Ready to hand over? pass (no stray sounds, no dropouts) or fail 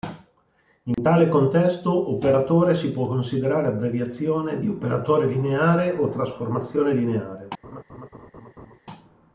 fail